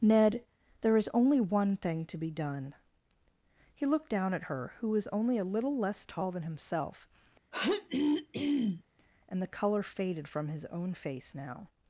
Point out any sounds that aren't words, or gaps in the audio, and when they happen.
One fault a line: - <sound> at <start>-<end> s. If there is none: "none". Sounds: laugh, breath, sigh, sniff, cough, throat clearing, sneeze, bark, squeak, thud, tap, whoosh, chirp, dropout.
- throat clearing at 7.5-8.8 s